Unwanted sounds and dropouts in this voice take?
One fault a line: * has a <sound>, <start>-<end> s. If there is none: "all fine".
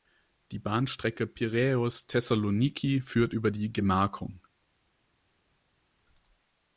all fine